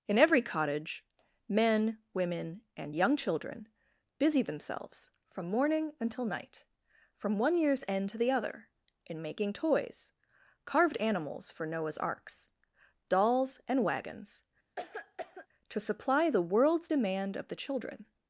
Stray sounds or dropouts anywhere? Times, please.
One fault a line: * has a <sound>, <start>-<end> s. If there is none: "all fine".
* has a cough, 14.8-15.5 s